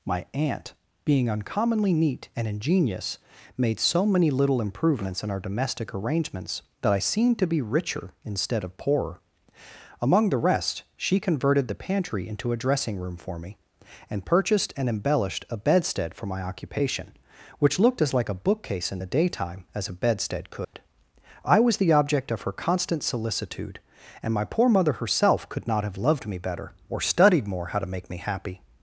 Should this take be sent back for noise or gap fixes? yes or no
yes